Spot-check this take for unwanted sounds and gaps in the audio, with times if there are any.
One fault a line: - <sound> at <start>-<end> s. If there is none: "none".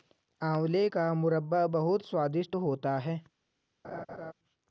- laugh at 3.8-4.3 s